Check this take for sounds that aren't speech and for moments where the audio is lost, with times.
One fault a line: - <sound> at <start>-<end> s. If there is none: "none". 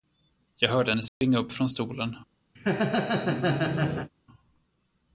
- dropout at 1.1-1.2 s
- laugh at 2.6-4.1 s